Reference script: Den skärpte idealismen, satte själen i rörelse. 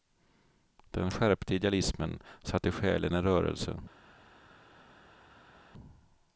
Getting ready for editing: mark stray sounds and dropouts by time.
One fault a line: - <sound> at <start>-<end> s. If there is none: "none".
none